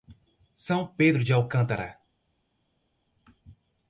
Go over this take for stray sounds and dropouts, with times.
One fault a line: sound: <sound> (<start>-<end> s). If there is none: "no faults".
no faults